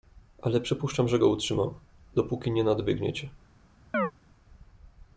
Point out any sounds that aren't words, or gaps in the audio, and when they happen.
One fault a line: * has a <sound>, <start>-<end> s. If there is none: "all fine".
* has a chirp, 3.9-4.1 s